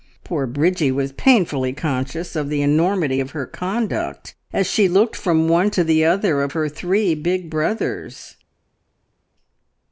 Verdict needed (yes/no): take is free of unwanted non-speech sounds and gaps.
yes